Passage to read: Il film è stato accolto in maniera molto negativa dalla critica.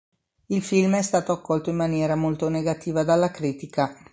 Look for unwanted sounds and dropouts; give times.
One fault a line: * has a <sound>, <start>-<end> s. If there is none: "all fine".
all fine